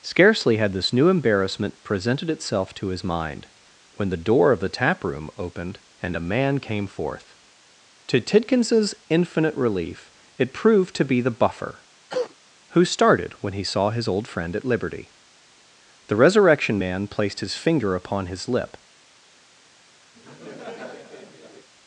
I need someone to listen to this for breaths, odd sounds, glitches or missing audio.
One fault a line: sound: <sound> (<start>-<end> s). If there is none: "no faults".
sound: cough (12.1-12.3 s)
sound: laugh (20.1-21.7 s)